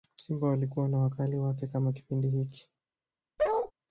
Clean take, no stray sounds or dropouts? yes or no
no